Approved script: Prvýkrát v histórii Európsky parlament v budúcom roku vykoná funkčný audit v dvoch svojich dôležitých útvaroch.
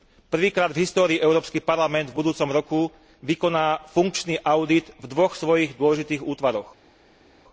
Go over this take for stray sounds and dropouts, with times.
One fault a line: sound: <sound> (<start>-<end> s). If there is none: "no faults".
no faults